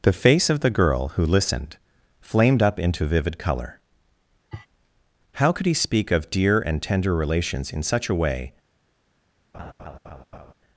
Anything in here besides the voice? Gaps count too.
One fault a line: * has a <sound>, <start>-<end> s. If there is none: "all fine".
* has a sniff, 4.5-4.7 s
* has a laugh, 9.5-10.5 s